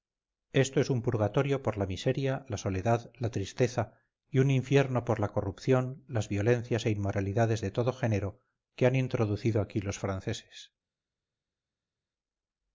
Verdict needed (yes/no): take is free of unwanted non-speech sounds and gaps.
yes